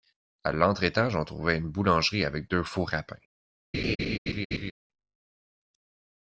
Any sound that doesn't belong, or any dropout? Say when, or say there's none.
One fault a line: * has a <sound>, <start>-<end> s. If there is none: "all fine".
* has a laugh, 3.7-4.7 s